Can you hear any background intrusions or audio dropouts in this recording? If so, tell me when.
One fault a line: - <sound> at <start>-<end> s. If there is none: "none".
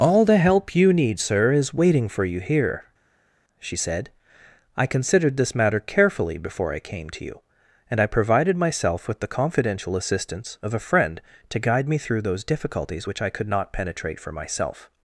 none